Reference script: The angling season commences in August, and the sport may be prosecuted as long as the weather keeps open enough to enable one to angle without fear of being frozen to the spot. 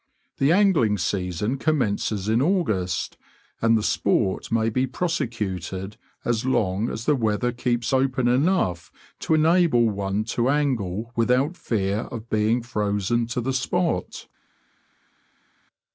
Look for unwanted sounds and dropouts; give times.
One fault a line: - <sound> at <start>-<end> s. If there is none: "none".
none